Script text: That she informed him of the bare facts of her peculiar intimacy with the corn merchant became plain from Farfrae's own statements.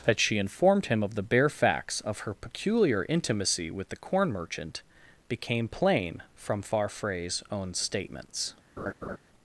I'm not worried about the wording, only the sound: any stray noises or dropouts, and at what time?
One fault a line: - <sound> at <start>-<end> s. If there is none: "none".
- laugh at 8.8-9.2 s